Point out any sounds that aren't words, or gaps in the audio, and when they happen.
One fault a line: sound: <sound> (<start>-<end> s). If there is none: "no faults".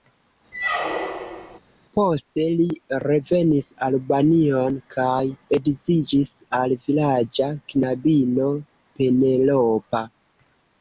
sound: squeak (0.5-1.6 s)